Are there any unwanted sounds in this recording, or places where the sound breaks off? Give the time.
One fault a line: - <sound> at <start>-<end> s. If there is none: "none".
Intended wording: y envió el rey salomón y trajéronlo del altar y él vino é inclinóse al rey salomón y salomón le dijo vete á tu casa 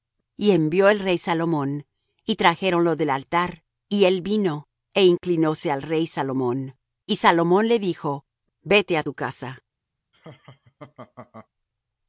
- laugh at 10.1-11.5 s